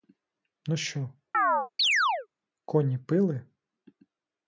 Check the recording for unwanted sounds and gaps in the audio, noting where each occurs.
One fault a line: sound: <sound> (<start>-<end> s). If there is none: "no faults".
sound: chirp (1.3-2.3 s)